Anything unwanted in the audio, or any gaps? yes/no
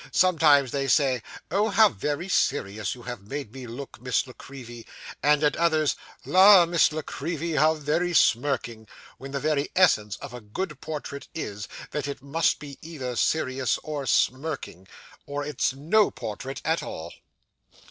no